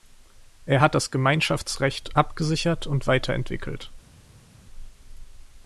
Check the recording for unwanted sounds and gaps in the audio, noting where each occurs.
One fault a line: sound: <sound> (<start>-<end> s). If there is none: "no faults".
no faults